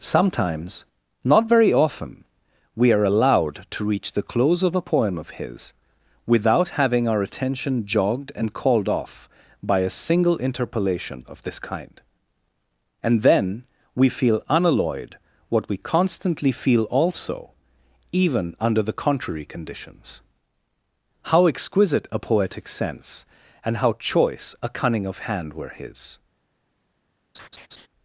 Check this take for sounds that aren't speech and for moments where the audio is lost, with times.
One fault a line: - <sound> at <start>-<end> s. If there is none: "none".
- laugh at 27.3-27.9 s